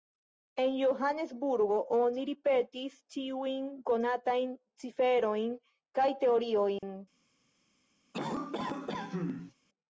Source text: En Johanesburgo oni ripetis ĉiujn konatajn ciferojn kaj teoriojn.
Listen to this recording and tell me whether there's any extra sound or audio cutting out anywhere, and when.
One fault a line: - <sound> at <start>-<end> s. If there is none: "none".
- dropout at 6.8-6.8 s
- cough at 8.1-9.5 s